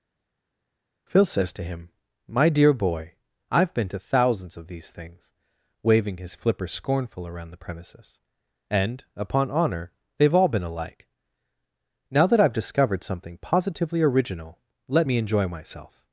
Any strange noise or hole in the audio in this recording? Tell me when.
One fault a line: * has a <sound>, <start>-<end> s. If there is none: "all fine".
all fine